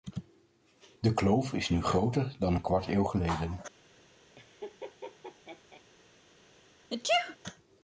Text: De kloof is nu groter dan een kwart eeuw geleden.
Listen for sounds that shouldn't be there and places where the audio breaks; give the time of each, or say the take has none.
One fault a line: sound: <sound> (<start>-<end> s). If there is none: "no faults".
sound: laugh (4.4-5.8 s)
sound: sneeze (6.9-7.4 s)